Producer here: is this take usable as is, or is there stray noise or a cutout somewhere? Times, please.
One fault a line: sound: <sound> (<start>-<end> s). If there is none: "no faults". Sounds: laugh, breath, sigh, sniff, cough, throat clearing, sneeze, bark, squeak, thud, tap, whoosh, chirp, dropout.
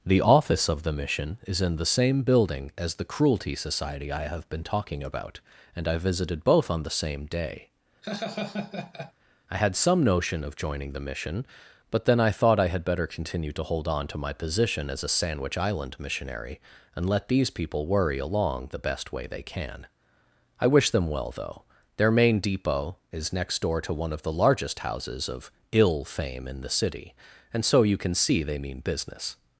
sound: laugh (8.0-9.1 s)